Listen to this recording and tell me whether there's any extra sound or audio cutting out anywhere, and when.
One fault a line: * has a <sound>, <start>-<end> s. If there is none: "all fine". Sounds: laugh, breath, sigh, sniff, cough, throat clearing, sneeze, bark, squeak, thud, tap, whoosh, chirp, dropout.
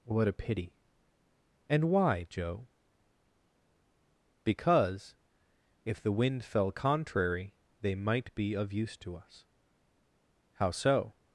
all fine